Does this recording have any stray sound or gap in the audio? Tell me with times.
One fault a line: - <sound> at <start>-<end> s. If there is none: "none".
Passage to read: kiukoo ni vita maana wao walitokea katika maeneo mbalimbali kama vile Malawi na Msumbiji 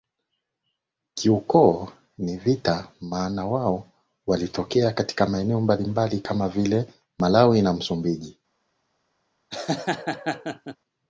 - laugh at 9.5-10.8 s